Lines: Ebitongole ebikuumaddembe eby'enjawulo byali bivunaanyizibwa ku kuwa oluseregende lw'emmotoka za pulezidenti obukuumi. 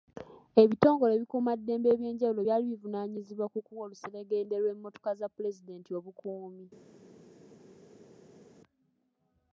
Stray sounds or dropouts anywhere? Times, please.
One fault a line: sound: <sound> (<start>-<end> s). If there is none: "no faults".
no faults